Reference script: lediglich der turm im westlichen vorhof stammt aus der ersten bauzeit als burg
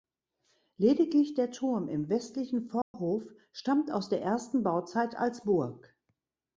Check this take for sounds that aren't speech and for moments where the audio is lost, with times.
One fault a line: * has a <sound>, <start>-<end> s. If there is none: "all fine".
* has a dropout, 2.8-2.9 s